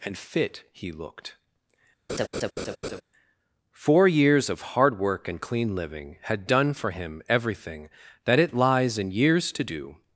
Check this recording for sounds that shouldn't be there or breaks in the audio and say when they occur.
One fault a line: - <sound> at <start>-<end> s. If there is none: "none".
- laugh at 2.1-3.0 s